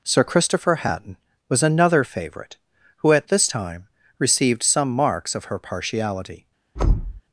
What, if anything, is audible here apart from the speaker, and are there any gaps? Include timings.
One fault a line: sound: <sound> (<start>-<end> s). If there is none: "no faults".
sound: thud (6.8-7.2 s)